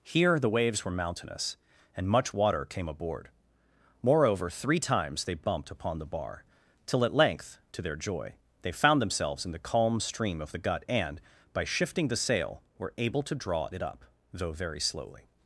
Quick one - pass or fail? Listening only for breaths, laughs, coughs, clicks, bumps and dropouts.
pass